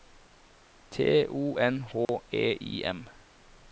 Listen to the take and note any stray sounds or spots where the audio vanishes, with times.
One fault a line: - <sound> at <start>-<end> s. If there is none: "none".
- dropout at 2.0-2.1 s